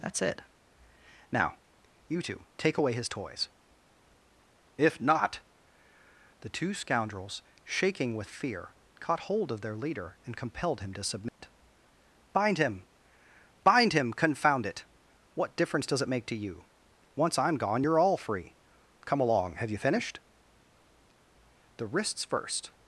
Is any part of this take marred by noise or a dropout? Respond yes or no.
yes